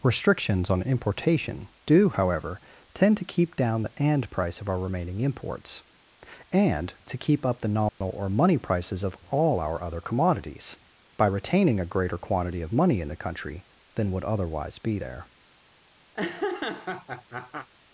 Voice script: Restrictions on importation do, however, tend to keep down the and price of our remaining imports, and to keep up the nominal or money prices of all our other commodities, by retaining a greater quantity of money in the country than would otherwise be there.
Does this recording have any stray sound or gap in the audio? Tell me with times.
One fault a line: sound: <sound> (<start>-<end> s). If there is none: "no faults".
sound: dropout (7.9-8.0 s)
sound: laugh (16.1-17.7 s)